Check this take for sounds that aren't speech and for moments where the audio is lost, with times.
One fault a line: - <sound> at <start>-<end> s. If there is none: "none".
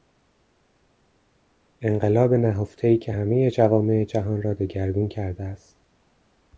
none